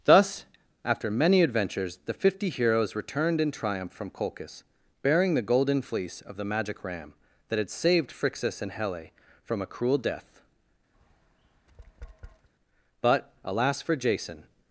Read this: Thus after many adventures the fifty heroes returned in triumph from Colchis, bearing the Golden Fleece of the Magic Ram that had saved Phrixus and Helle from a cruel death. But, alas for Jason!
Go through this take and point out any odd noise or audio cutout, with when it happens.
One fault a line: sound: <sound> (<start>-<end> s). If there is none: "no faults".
sound: tap (10.9-12.5 s)